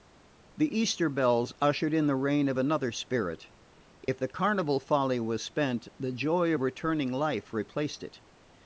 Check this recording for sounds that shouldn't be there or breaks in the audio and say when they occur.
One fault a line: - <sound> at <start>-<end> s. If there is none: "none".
- dropout at 4.0-4.1 s